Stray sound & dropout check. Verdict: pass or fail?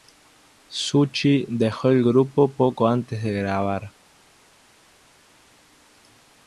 pass